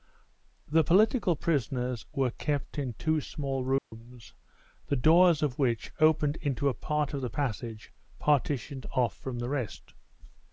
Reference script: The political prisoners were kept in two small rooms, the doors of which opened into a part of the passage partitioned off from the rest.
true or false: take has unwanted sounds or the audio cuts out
true